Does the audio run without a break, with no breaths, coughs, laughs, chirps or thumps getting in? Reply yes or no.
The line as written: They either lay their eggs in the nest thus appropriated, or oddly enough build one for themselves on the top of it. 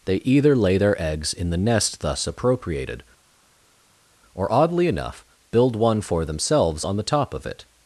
yes